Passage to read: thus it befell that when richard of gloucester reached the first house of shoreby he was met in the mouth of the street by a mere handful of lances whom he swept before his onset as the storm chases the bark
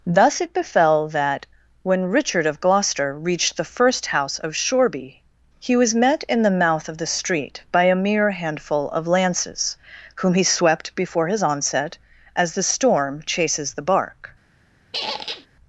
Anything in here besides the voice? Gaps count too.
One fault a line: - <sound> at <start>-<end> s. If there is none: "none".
- squeak at 14.9-15.5 s